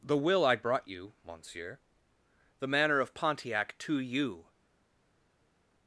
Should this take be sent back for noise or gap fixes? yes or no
no